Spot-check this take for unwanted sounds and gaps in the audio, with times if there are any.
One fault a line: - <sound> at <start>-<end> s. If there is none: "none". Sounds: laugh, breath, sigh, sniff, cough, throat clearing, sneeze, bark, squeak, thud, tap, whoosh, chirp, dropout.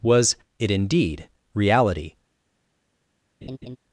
- laugh at 3.4-3.8 s